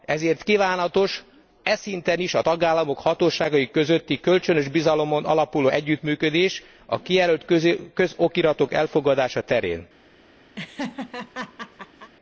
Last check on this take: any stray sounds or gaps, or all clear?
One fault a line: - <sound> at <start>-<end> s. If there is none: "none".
- laugh at 10.6-12.1 s